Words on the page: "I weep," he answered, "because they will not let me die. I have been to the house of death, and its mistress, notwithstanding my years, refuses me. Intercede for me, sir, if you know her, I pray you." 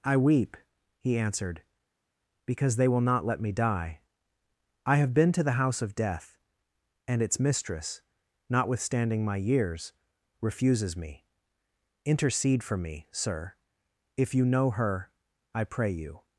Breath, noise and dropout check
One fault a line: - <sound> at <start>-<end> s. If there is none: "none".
none